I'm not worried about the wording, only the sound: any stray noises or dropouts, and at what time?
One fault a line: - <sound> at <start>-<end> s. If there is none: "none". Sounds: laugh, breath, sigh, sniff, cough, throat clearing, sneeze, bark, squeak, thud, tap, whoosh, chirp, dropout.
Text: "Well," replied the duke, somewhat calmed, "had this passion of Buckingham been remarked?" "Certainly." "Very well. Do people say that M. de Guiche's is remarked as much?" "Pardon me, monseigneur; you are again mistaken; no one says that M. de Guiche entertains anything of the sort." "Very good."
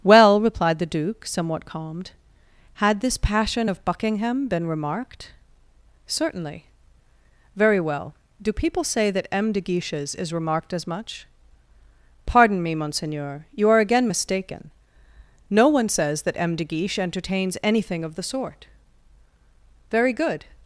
none